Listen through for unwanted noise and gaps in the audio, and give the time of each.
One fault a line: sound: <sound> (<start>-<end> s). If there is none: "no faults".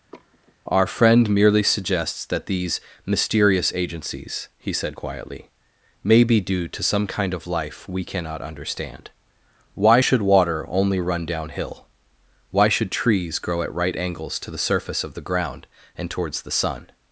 sound: sigh (0.1-0.5 s)